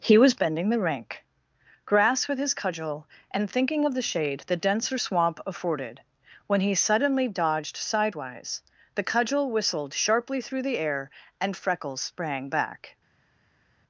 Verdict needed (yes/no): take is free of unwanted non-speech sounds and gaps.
yes